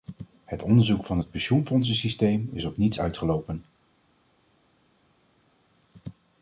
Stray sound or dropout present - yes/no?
no